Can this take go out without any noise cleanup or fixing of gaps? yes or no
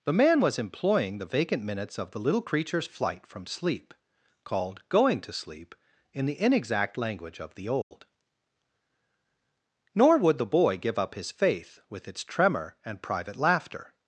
no